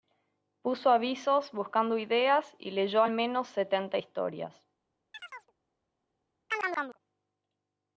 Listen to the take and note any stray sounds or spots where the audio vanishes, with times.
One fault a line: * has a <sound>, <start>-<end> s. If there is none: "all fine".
* has a chirp, 5.1-5.5 s
* has a chirp, 6.5-7.0 s